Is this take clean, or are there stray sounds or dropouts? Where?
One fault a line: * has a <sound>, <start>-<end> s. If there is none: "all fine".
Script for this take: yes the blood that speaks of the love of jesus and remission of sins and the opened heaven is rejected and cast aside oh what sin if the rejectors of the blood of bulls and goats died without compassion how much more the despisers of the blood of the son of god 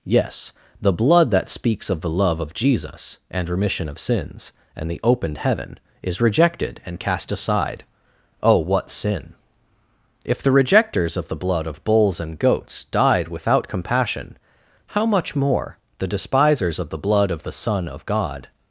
all fine